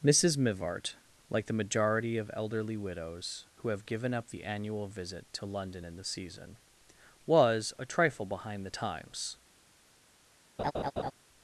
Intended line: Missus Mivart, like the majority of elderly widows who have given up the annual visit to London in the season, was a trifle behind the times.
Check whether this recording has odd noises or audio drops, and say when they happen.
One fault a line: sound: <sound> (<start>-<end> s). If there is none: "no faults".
sound: laugh (10.6-11.1 s)